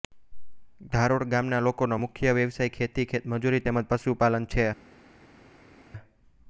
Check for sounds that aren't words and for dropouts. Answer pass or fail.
pass